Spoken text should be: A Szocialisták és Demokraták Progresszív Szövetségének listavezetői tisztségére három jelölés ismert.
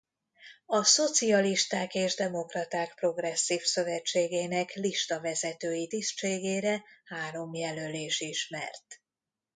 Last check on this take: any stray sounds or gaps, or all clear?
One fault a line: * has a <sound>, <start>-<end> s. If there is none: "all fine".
all fine